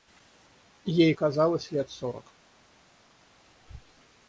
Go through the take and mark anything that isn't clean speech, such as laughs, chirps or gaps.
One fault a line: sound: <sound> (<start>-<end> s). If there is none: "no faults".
no faults